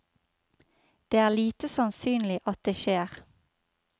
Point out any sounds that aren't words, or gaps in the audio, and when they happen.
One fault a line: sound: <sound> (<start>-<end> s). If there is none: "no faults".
no faults